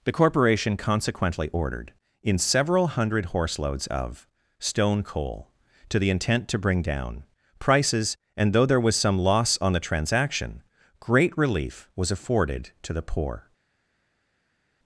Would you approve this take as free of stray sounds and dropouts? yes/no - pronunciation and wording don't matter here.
yes